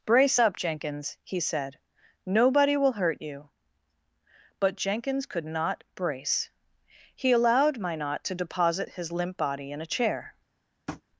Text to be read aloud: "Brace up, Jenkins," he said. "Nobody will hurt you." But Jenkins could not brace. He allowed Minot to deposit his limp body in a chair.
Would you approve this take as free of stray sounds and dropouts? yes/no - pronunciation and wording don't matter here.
no